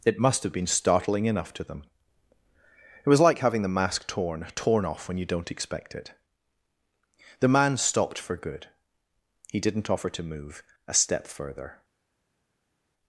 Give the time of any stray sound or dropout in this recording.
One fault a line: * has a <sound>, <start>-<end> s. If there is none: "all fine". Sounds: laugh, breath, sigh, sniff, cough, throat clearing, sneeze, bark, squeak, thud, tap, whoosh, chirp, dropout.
all fine